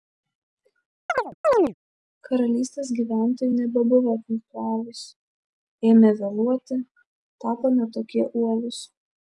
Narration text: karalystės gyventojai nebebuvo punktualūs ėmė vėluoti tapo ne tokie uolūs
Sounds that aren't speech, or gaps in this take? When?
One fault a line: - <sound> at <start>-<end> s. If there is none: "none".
- chirp at 1.1-1.7 s